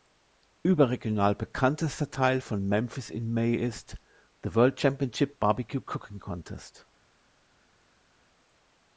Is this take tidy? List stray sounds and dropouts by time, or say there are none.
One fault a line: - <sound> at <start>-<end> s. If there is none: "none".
none